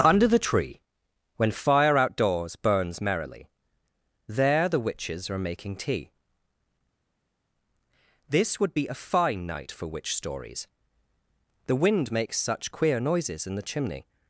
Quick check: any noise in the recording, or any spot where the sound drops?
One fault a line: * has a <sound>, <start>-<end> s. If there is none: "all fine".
all fine